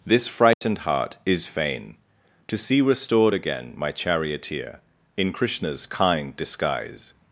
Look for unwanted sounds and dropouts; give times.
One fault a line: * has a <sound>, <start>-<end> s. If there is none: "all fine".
* has a dropout, 0.5-0.6 s